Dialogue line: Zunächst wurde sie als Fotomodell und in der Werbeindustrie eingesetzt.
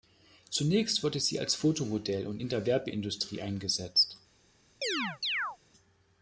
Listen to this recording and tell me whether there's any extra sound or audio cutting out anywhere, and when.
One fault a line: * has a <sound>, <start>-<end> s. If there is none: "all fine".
* has a chirp, 4.8-5.6 s